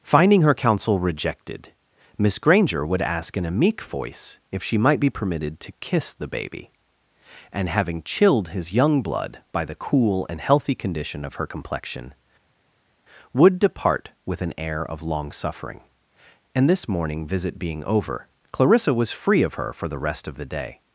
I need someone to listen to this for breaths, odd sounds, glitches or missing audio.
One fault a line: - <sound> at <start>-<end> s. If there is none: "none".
none